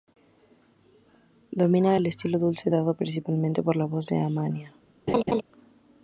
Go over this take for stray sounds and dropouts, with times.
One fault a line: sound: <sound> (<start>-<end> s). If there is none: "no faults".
sound: laugh (5.1-5.4 s)